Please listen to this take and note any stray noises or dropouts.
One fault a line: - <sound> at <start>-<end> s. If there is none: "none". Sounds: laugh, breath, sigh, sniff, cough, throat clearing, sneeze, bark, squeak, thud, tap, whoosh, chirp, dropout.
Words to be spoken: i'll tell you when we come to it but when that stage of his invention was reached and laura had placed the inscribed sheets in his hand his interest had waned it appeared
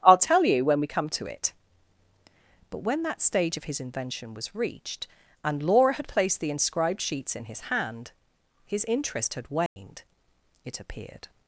- dropout at 9.7-9.8 s